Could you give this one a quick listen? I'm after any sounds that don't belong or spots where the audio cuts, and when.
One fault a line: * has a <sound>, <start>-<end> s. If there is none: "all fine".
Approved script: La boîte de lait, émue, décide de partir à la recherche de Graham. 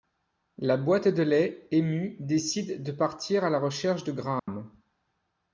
* has a dropout, 4.4-4.5 s